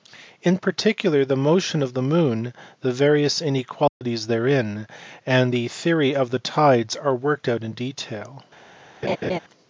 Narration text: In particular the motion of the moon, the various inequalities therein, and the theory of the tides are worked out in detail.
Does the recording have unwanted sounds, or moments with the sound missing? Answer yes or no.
yes